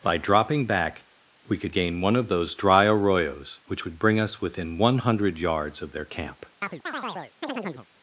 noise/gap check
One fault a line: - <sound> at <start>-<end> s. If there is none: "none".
- chirp at 6.6-7.9 s